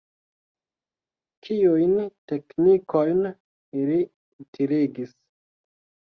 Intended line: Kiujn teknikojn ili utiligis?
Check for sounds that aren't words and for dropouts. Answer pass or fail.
pass